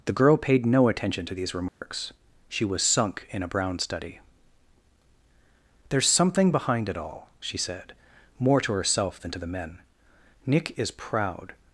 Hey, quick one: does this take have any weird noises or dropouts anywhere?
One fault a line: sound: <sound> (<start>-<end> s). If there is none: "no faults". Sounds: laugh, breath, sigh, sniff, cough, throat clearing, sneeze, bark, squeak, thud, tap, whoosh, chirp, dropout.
sound: dropout (1.7-1.8 s)